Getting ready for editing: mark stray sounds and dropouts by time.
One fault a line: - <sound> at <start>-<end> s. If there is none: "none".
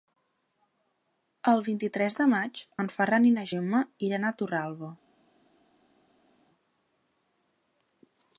none